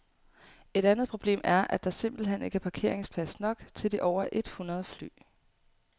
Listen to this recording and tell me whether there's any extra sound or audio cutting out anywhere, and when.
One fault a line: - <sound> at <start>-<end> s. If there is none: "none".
none